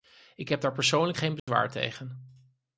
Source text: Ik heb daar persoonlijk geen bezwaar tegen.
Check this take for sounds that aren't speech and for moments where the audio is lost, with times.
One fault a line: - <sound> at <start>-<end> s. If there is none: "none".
- dropout at 1.4-1.5 s